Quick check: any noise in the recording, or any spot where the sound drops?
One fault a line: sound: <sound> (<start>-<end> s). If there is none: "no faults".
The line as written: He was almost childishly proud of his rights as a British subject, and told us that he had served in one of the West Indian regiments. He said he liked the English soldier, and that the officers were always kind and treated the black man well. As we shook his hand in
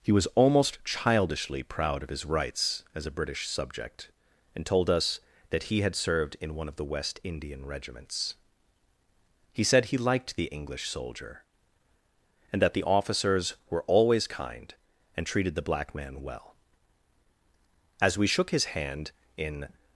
no faults